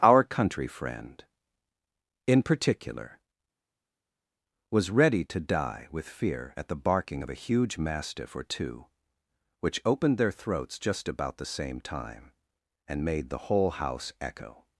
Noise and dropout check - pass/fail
pass